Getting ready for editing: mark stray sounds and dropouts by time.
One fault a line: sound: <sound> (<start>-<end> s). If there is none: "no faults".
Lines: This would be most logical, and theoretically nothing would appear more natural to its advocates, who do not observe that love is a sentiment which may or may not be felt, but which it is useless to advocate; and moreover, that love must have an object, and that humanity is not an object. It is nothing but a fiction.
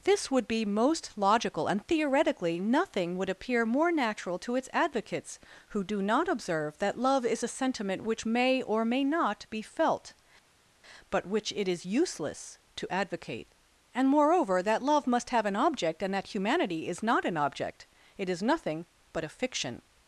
no faults